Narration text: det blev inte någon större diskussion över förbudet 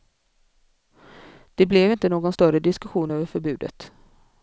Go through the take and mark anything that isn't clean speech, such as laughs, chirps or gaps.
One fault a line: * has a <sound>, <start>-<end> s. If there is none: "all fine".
all fine